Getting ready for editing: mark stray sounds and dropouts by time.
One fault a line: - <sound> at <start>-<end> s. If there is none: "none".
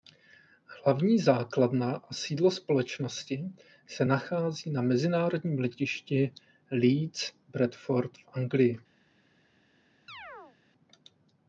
- chirp at 10.1-10.6 s